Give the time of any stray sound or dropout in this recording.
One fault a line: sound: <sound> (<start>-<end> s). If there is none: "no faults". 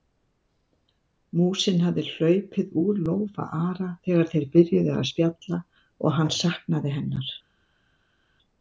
no faults